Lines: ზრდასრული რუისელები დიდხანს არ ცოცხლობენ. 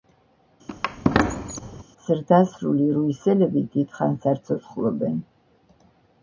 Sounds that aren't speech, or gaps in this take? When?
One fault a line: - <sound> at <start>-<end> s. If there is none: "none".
- squeak at 0.7-1.8 s